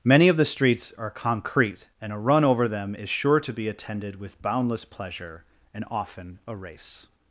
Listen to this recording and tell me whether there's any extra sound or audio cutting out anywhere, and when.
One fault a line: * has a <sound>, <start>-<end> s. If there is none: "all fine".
all fine